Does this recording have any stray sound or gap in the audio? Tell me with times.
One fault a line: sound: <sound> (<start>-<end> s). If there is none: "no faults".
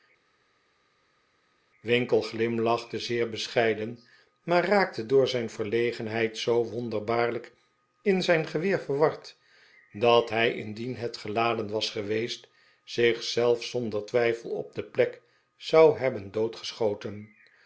no faults